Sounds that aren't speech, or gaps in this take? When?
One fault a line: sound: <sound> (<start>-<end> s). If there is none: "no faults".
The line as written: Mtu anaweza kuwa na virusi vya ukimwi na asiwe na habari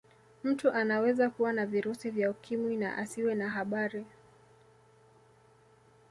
no faults